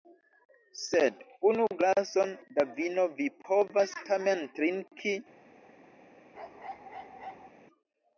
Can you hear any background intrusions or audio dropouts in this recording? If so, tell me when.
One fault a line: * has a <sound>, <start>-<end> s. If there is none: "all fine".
* has a bark, 6.3-7.5 s